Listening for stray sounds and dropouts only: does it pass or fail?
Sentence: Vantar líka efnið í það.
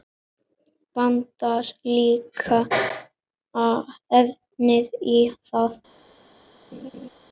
fail